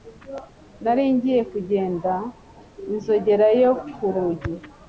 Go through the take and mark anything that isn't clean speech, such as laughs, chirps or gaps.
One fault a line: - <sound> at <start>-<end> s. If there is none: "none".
none